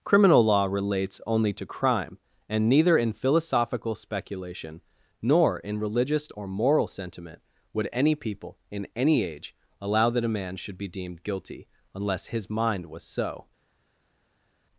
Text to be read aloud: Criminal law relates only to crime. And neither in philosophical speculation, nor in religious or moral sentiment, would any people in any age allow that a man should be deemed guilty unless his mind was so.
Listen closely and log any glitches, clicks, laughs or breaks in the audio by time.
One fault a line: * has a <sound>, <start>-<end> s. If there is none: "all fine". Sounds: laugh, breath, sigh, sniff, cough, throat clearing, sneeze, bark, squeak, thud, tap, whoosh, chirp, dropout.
all fine